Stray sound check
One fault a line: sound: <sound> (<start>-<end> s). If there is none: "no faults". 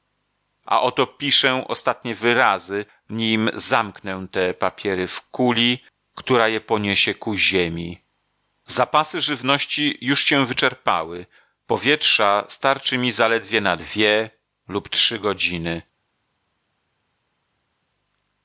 no faults